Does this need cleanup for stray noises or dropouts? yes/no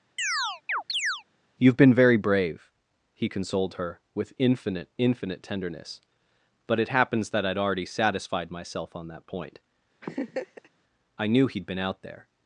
yes